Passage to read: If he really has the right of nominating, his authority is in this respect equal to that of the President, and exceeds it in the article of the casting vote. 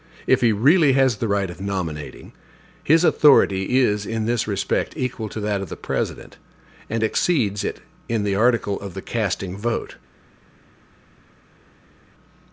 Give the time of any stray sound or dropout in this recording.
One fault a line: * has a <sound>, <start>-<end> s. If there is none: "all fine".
all fine